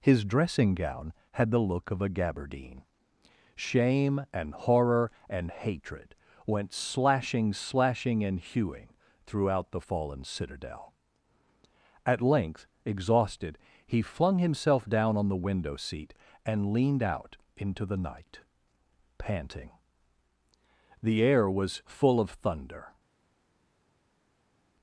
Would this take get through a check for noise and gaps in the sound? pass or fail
pass